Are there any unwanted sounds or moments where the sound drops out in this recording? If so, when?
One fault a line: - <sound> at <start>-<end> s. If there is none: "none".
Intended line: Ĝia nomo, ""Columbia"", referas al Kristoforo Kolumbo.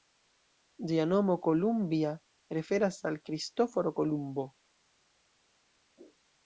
none